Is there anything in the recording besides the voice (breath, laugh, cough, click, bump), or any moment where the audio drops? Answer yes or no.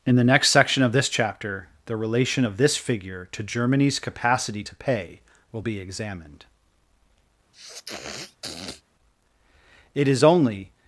yes